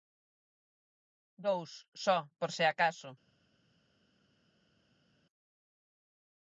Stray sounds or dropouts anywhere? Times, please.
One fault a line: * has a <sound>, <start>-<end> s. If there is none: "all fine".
all fine